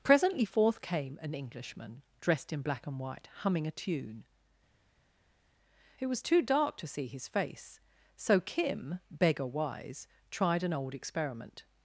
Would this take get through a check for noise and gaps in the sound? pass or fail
pass